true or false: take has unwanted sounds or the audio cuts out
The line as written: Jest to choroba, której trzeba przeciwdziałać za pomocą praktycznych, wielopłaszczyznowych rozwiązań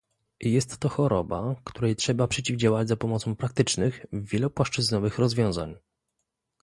false